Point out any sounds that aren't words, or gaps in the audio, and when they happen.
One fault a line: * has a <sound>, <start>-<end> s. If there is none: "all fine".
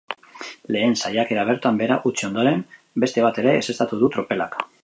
all fine